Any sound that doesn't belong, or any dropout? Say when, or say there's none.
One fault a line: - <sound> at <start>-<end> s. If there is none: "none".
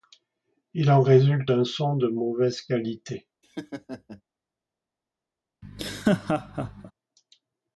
- laugh at 3.4-4.2 s
- laugh at 5.6-6.9 s